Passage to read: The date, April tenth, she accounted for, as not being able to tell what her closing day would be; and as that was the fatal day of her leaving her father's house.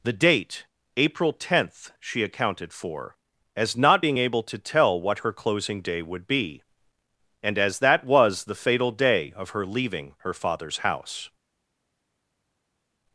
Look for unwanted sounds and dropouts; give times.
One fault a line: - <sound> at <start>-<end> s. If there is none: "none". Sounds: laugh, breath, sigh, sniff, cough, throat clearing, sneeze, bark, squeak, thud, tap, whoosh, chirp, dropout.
none